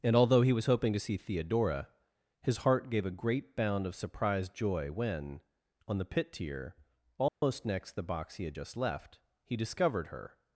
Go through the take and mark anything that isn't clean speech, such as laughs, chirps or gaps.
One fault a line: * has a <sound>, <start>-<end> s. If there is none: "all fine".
* has a dropout, 7.3-7.4 s